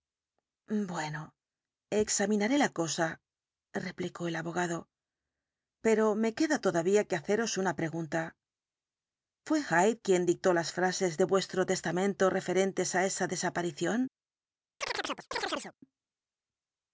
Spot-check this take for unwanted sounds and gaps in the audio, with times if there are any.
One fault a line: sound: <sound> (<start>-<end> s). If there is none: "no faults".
sound: chirp (14.8-15.7 s)